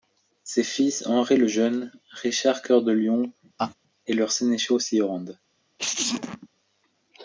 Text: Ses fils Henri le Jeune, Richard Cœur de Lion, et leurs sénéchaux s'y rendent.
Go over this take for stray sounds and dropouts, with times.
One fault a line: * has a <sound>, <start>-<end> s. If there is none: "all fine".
* has a laugh, 3.6-3.7 s
* has a sneeze, 5.8-6.5 s